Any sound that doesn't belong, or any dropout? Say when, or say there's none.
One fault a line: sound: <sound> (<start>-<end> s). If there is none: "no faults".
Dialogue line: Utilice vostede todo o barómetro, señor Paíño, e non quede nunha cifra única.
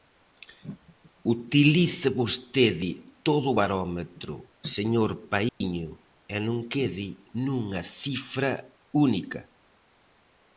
sound: dropout (5.5-5.6 s)